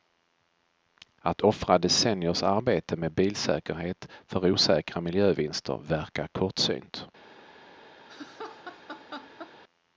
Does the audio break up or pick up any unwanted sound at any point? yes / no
yes